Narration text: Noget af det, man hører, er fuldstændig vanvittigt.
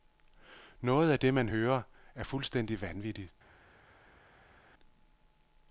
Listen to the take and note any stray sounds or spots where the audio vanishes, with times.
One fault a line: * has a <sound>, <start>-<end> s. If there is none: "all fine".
all fine